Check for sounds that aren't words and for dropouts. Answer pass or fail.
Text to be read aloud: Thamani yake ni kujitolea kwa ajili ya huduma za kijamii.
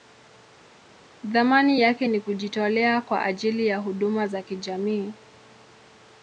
pass